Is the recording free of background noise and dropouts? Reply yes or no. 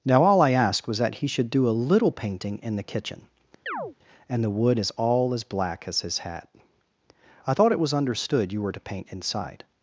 no